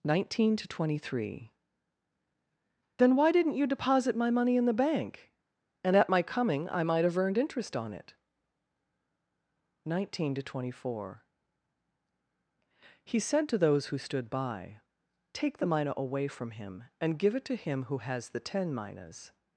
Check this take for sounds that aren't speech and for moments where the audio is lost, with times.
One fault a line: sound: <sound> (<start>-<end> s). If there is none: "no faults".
no faults